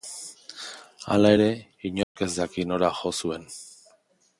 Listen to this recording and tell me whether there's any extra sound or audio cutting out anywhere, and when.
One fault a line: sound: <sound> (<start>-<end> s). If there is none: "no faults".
sound: dropout (2.0-2.2 s)